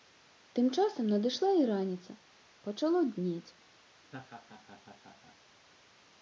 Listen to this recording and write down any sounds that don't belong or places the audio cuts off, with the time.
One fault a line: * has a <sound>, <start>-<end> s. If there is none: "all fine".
* has a laugh, 4.0-5.4 s